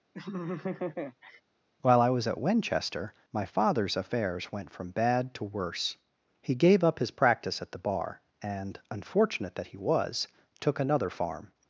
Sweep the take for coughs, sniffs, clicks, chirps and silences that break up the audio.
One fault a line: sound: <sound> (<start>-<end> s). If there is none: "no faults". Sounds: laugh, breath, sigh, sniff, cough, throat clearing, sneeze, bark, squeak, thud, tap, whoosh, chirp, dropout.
sound: laugh (0.1-1.4 s)